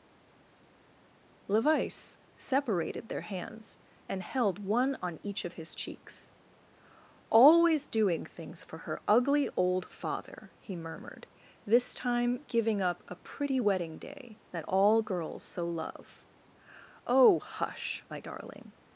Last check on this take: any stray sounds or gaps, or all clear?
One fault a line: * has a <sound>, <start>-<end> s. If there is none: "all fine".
all fine